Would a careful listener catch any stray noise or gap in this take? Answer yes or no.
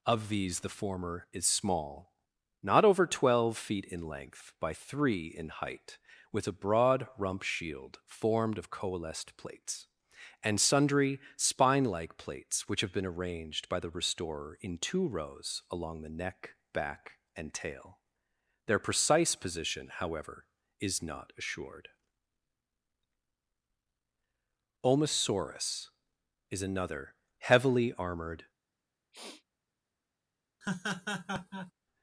yes